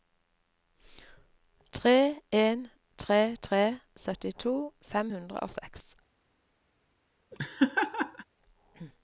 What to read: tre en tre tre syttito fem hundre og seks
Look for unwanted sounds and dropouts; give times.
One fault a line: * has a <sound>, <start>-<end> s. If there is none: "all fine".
* has a laugh, 7.3-8.2 s